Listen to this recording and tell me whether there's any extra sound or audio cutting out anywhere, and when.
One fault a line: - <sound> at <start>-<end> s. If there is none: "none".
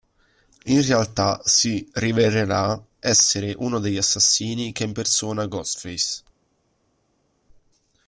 none